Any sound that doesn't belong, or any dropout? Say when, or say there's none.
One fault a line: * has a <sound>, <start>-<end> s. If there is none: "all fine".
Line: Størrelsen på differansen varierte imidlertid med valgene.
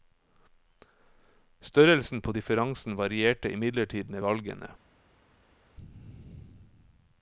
all fine